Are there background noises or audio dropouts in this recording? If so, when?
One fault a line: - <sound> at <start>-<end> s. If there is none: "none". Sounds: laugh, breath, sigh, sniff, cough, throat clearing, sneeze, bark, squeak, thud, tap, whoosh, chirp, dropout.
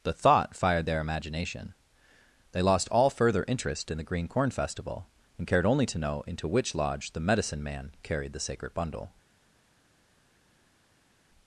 none